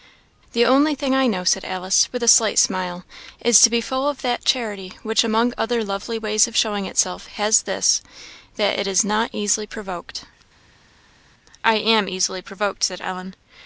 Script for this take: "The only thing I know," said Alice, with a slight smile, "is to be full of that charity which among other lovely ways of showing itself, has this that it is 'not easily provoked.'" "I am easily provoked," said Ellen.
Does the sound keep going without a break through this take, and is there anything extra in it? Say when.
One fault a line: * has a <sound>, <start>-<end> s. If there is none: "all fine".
all fine